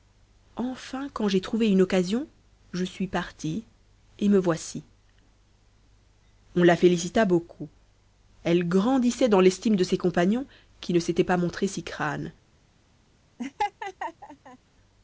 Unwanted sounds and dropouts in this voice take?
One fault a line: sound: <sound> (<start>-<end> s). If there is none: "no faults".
sound: laugh (13.4-14.6 s)